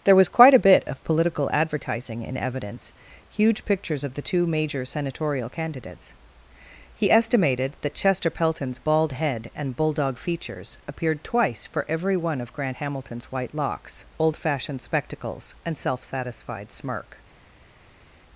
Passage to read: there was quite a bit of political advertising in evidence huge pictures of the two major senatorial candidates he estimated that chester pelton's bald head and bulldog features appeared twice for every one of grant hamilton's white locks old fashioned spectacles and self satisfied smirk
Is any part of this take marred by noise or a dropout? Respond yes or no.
no